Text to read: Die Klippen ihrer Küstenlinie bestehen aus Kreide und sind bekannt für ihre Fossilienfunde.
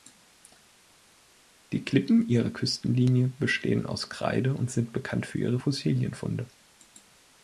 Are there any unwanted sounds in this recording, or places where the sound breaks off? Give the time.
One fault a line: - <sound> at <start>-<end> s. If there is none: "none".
none